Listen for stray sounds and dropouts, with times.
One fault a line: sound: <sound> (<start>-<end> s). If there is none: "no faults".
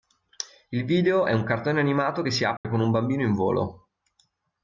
sound: dropout (2.6-2.6 s)